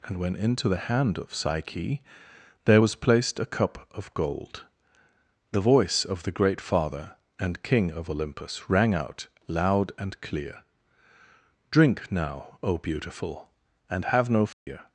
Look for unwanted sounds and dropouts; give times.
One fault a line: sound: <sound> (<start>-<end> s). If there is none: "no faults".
sound: dropout (14.5-14.7 s)